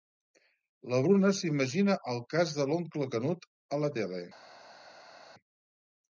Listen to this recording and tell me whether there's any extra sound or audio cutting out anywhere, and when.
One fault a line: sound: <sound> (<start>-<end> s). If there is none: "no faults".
no faults